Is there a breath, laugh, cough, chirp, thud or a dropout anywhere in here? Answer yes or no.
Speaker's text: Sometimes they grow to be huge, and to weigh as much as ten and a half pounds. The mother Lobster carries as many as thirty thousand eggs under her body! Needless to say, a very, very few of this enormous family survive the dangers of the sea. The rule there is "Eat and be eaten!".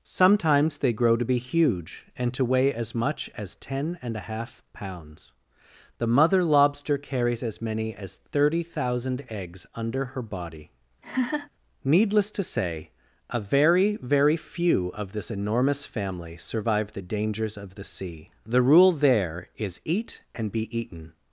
yes